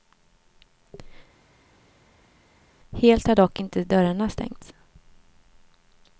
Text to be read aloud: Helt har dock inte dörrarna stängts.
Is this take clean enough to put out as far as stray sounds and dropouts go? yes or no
yes